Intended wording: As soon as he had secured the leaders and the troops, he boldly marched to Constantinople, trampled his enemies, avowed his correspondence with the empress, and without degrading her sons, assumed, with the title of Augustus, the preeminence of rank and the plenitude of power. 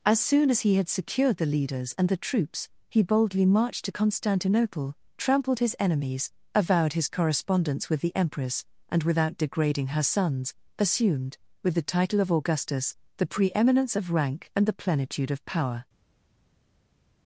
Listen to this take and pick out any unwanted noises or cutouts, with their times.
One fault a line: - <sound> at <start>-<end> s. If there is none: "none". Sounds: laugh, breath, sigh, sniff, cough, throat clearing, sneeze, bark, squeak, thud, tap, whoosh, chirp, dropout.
none